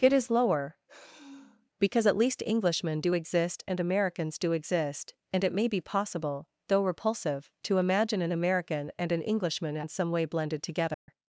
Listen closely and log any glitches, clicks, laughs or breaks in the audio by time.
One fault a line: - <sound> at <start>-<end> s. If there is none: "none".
- sigh at 0.9-1.7 s
- dropout at 10.9-11.1 s